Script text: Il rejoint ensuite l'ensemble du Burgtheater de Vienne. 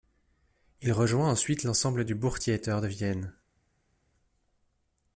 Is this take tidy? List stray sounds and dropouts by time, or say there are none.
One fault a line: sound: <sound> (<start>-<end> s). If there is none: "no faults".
no faults